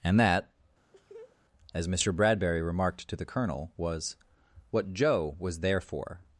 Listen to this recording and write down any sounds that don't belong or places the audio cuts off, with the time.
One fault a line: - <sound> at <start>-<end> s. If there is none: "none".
- laugh at 0.9-1.4 s